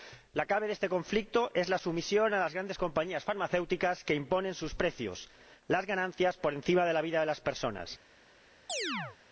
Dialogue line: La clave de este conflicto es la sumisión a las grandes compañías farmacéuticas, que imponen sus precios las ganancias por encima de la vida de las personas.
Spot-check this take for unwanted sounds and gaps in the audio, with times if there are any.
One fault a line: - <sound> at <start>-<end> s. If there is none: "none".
- chirp at 8.7-9.2 s